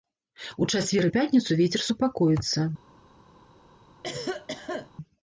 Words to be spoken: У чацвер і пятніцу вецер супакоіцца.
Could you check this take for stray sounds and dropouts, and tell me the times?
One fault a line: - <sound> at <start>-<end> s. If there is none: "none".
- cough at 4.0-4.9 s